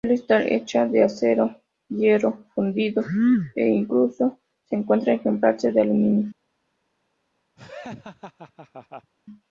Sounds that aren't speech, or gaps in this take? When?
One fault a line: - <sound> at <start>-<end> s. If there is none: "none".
- laugh at 7.6-9.1 s